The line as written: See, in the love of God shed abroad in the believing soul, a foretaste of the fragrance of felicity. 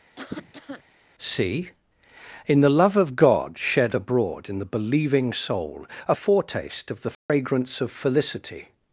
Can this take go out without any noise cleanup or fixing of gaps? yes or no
no